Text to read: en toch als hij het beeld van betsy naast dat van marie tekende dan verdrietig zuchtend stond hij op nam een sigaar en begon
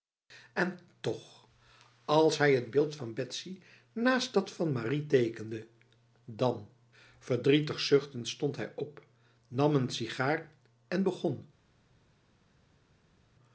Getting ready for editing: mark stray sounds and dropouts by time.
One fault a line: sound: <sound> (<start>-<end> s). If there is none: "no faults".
no faults